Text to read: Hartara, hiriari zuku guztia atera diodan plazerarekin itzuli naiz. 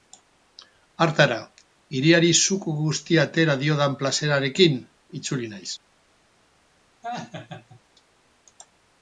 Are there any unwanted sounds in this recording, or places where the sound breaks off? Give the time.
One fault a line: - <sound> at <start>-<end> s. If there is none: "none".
- laugh at 7.0-7.8 s